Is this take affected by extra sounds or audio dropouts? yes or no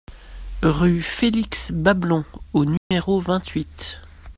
yes